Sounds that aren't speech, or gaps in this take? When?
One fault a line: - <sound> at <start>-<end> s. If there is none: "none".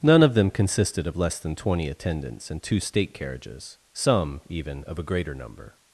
none